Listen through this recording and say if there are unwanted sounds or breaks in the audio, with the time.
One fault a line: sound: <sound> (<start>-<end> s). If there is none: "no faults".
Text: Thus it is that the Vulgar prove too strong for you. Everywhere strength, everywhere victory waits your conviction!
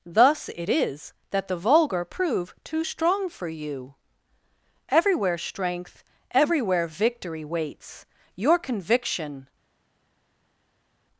no faults